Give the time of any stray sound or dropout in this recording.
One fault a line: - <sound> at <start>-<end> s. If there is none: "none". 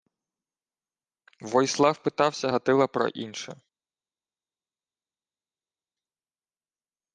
none